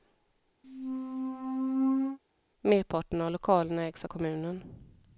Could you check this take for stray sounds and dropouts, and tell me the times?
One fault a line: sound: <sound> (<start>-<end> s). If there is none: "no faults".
sound: squeak (0.6-2.2 s)